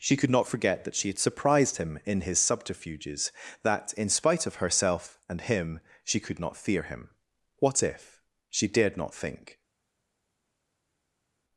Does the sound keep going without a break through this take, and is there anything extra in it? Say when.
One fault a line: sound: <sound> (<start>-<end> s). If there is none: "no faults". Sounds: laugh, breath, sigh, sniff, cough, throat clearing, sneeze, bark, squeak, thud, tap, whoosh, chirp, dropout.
no faults